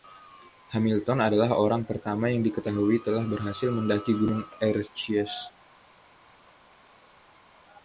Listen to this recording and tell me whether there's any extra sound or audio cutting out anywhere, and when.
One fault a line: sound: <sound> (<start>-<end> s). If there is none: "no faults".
no faults